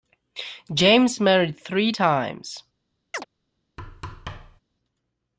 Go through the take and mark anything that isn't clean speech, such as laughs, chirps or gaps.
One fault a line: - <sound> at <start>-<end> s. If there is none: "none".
- chirp at 3.1-3.3 s
- thud at 3.8-4.6 s